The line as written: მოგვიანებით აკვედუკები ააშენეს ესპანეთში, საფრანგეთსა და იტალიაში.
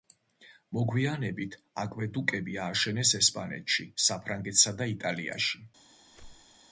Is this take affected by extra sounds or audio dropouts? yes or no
yes